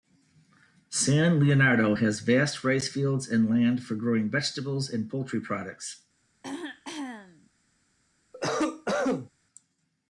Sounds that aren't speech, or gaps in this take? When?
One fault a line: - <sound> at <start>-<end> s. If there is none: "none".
- throat clearing at 6.4-7.5 s
- cough at 8.3-9.3 s